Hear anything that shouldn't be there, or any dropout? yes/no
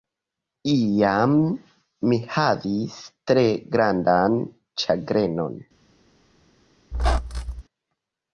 yes